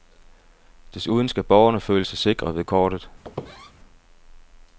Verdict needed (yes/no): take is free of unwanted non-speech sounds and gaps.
no